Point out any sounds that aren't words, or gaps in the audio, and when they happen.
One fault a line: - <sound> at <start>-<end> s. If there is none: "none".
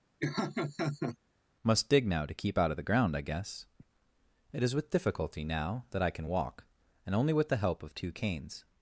- laugh at 0.2-1.2 s